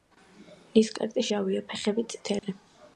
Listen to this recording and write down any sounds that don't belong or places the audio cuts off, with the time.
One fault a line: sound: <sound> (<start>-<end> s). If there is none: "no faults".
sound: dropout (2.4-2.4 s)